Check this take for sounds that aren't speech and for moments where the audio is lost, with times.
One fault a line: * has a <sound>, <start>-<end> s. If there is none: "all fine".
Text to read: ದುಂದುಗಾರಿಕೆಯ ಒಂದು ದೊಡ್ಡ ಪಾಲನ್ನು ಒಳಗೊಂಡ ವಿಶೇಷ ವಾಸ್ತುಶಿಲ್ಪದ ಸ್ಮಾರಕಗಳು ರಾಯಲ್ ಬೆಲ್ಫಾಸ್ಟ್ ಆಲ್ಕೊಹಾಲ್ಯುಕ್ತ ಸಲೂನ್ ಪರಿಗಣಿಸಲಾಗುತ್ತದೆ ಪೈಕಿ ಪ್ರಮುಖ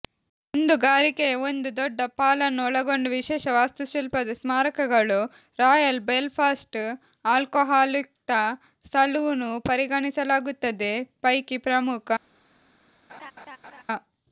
* has a laugh, 13.1-13.8 s